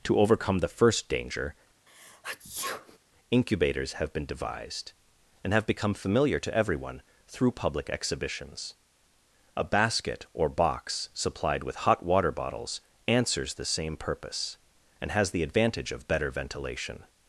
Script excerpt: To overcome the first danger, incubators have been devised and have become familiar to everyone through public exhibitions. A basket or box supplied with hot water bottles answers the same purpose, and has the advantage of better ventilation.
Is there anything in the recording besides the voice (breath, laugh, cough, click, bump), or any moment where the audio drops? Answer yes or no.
yes